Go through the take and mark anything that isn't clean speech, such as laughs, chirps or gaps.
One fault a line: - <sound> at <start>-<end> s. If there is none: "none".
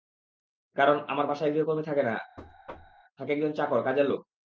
- thud at 2.4-3.0 s